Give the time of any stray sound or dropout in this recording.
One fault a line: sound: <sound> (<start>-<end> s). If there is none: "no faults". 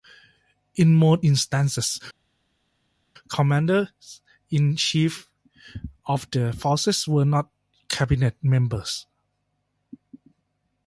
no faults